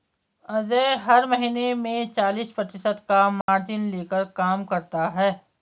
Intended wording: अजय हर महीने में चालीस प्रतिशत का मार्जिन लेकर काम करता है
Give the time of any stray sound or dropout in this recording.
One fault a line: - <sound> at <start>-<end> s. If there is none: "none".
- dropout at 3.4-3.5 s